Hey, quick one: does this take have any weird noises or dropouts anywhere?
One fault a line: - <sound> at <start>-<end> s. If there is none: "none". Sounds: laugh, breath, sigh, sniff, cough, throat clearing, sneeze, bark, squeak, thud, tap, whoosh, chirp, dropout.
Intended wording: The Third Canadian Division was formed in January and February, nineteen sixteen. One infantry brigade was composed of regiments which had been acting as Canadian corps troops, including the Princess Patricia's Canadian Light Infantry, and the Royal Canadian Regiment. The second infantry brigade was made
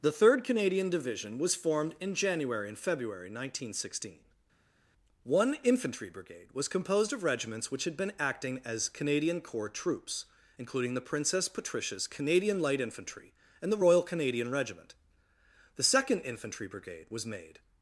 none